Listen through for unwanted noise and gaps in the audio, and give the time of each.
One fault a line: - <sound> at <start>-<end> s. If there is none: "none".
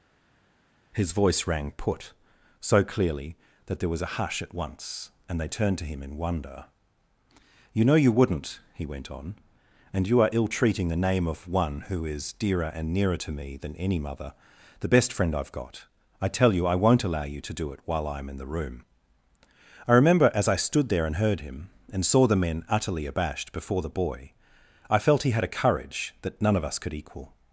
none